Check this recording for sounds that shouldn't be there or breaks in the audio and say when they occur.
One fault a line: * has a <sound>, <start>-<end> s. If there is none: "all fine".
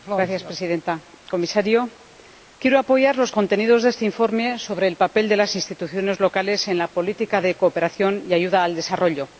all fine